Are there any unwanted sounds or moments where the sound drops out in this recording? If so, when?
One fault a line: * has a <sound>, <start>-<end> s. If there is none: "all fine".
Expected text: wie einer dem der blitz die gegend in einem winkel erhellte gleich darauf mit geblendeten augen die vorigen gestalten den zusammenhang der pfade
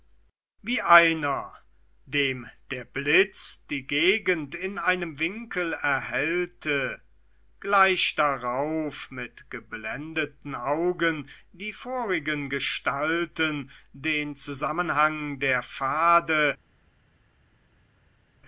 all fine